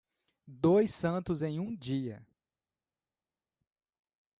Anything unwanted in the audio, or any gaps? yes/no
no